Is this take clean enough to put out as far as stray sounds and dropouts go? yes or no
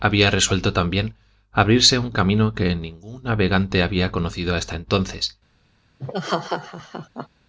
no